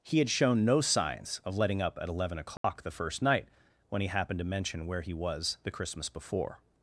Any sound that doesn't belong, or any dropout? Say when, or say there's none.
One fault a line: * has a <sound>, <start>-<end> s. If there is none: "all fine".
* has a dropout, 2.6-2.6 s